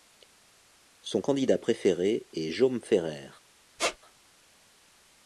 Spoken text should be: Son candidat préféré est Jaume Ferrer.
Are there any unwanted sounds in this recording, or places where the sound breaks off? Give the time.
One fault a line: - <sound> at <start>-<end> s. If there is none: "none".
- squeak at 3.8-4.0 s